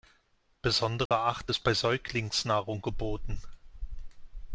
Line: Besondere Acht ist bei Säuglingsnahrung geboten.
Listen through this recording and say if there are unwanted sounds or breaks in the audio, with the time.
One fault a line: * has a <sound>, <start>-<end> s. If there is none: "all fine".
* has a dropout, 1.1-1.1 s